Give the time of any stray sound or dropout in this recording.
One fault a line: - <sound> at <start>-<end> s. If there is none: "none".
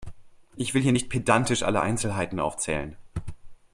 none